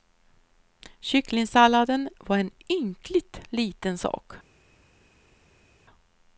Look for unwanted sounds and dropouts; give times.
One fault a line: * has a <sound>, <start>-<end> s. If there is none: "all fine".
all fine